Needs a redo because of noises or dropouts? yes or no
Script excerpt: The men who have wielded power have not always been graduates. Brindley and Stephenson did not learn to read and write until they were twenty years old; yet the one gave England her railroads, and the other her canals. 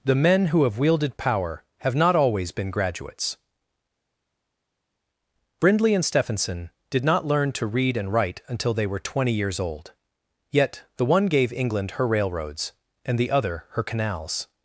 no